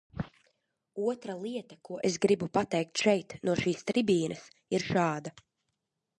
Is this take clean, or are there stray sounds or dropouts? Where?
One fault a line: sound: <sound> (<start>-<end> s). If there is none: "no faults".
no faults